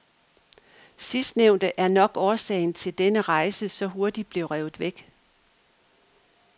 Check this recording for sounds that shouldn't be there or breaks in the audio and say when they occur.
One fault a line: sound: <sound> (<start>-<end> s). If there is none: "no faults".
no faults